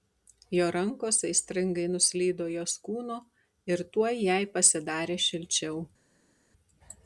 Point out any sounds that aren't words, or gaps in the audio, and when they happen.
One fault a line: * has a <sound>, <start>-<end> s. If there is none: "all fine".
all fine